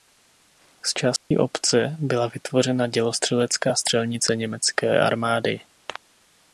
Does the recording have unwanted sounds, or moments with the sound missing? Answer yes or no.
yes